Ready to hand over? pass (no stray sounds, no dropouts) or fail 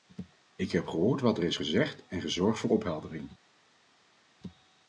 pass